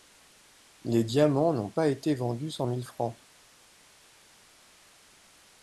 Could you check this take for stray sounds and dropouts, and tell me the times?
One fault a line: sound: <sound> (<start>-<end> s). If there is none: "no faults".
no faults